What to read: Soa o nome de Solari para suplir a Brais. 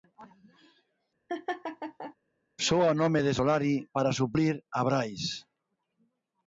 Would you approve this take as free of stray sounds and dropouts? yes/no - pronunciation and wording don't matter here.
no